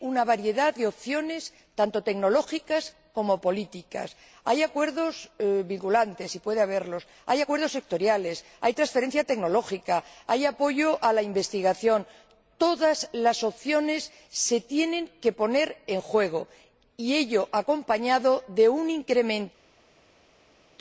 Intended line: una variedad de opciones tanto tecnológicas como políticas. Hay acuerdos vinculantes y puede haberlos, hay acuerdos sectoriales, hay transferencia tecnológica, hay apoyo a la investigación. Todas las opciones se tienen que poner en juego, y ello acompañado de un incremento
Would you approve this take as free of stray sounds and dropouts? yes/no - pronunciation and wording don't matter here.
yes